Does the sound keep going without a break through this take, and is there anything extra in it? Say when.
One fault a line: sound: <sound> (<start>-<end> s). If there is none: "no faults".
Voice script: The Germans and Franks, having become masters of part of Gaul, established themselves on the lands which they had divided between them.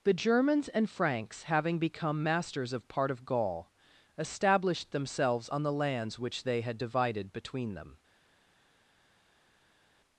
no faults